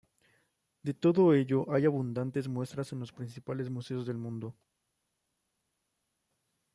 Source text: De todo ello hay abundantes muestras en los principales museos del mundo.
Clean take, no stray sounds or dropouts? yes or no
yes